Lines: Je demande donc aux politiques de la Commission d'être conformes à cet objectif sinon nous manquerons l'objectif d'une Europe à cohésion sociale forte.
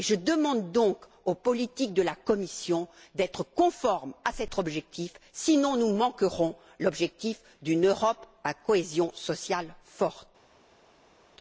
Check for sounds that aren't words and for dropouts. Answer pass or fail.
pass